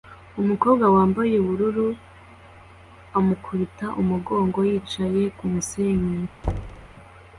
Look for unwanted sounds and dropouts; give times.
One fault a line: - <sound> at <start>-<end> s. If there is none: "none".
- thud at 6.4-6.9 s